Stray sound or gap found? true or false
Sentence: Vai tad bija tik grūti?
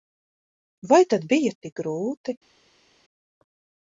false